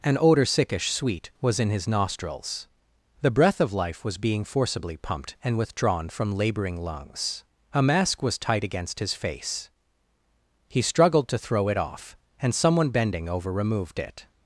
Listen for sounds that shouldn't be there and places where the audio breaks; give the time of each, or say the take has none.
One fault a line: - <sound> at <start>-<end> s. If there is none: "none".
none